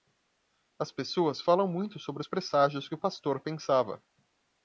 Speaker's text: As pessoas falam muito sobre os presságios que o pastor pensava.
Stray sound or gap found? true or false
false